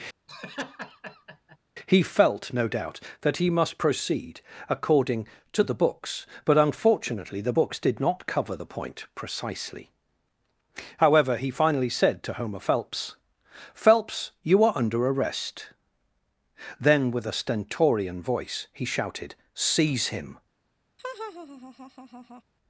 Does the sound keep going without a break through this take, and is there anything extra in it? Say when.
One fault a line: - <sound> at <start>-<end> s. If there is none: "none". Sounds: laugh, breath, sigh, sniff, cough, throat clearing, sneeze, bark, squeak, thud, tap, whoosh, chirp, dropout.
- laugh at 0.3-1.6 s
- laugh at 21.0-22.4 s